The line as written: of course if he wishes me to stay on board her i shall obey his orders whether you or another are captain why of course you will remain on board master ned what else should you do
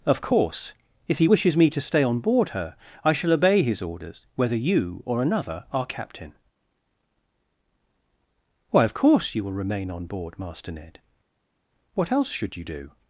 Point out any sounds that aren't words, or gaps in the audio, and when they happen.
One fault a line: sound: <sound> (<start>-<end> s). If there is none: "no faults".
no faults